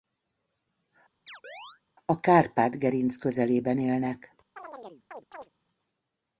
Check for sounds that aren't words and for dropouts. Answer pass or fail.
fail